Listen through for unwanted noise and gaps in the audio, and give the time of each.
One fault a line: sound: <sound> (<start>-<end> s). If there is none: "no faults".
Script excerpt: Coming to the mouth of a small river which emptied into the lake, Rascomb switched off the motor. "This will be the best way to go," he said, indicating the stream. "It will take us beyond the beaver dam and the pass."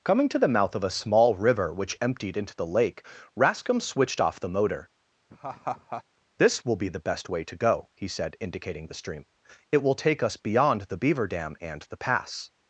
sound: laugh (5.3-6.0 s)